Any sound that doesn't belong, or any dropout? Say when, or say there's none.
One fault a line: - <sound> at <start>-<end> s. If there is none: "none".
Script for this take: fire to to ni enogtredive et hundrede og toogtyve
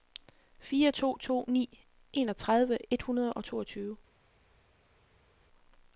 none